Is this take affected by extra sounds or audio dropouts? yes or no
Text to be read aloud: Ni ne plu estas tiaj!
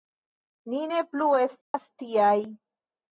yes